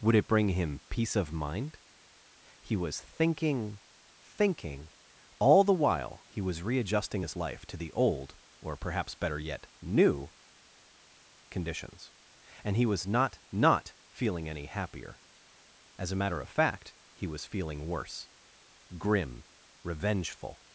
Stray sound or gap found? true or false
false